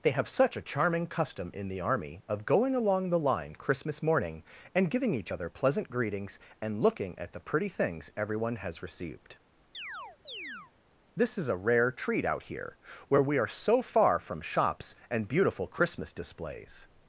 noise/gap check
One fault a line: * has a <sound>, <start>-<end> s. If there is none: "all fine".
* has a chirp, 9.7-10.7 s